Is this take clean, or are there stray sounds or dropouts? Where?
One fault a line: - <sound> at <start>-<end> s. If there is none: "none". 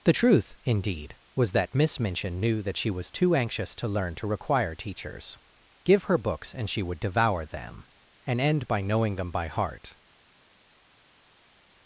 none